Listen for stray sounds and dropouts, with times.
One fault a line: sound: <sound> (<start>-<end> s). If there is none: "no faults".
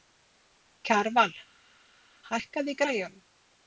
no faults